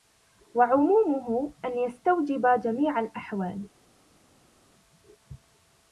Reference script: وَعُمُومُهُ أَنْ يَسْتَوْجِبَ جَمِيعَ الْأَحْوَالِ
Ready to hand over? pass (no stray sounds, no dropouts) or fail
pass